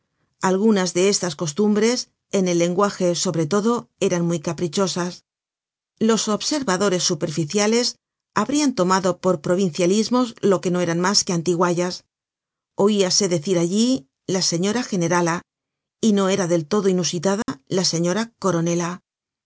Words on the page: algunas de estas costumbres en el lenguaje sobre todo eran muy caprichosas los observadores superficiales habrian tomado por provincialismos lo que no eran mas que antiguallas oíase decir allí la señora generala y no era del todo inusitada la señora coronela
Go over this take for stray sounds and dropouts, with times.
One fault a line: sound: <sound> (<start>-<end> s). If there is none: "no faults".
sound: dropout (17.4-17.5 s)